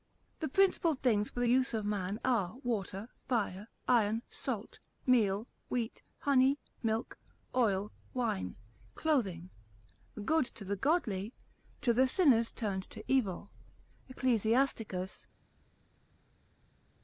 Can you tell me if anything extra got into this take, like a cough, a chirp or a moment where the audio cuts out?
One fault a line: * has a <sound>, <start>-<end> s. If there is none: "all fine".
all fine